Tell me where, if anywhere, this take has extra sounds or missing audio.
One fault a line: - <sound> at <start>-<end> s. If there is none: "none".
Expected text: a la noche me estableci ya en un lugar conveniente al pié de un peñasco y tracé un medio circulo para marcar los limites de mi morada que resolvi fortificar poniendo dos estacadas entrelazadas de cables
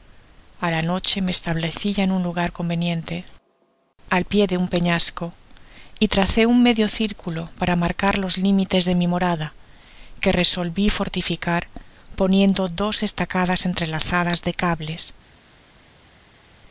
none